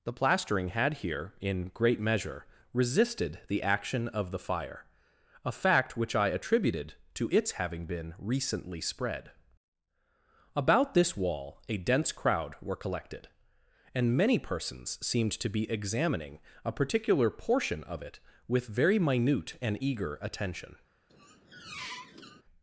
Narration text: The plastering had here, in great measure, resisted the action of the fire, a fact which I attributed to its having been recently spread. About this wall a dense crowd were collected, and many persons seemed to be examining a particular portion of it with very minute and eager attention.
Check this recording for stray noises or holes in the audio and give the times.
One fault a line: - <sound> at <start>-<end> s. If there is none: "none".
- squeak at 21.1-22.4 s